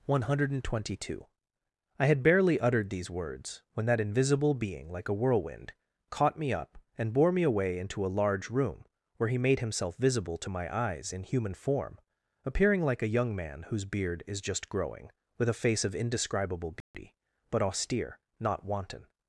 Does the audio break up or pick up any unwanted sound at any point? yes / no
yes